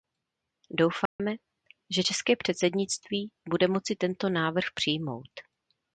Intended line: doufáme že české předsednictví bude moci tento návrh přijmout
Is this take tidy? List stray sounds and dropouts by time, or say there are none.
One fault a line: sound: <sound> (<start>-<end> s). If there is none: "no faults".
sound: dropout (1.1-1.2 s)